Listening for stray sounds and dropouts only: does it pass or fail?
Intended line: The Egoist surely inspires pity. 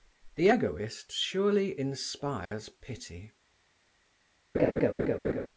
fail